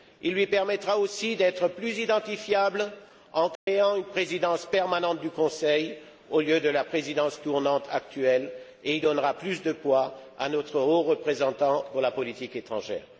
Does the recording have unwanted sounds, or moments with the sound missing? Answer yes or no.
yes